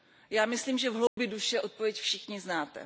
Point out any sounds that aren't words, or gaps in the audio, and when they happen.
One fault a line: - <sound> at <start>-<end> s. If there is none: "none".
- dropout at 1.1-1.2 s